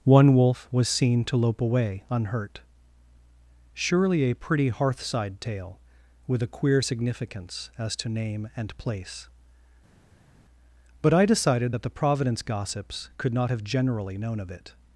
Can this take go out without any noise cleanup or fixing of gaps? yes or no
yes